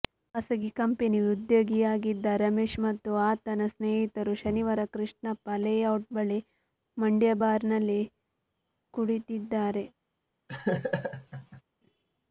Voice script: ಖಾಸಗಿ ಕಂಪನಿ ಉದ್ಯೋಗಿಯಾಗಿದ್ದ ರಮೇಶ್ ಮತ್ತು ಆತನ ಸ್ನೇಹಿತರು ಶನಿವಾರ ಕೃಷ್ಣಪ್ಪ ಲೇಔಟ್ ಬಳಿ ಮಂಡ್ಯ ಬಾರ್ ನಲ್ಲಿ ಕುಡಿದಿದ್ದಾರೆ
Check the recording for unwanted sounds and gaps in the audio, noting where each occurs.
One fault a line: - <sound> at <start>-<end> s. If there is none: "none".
- laugh at 10.5-11.6 s